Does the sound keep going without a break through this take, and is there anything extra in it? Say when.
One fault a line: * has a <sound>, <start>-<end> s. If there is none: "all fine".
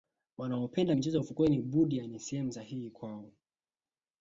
all fine